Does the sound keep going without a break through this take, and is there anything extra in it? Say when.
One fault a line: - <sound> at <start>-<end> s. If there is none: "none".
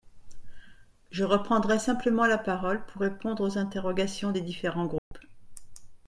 - dropout at 5.0-5.1 s